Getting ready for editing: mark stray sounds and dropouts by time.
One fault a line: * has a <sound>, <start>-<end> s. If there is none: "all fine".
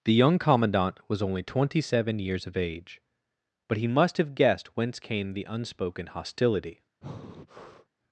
* has a breath, 7.0-7.9 s